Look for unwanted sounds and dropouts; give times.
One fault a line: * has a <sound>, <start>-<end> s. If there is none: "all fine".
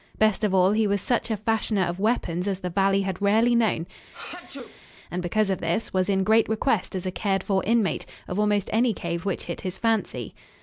* has a sneeze, 4.1-4.8 s